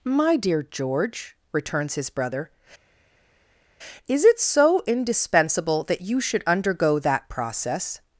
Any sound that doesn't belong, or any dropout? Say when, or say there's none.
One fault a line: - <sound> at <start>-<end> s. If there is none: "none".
none